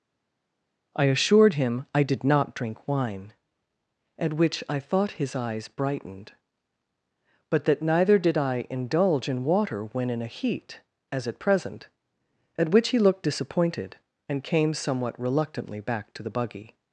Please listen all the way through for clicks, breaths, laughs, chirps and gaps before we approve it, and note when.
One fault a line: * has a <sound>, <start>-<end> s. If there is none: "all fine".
all fine